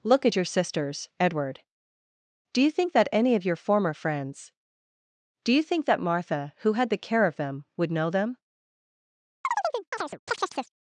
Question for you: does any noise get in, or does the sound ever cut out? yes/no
yes